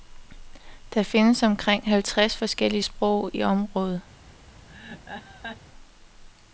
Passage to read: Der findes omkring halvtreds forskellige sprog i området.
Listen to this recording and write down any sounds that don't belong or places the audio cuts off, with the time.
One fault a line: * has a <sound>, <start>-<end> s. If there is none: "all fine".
* has a laugh, 4.7-5.6 s